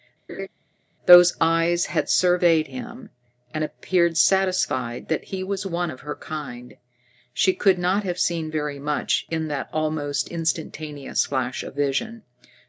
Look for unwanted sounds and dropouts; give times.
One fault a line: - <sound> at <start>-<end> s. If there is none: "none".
- laugh at 0.3-0.5 s